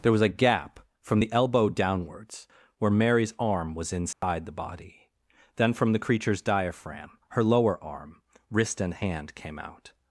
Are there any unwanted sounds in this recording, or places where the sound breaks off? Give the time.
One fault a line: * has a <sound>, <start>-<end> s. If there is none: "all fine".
* has a dropout, 4.1-4.2 s